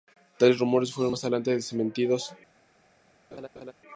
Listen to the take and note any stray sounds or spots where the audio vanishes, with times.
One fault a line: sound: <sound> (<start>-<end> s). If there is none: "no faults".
sound: laugh (3.3-3.7 s)